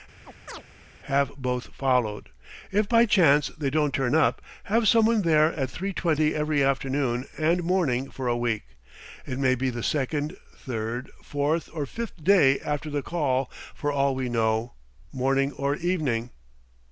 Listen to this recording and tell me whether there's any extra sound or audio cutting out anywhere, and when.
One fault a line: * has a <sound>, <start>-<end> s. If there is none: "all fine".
* has a chirp, 0.2-0.6 s